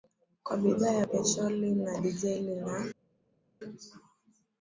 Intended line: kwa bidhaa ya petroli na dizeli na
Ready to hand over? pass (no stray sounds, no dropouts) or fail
pass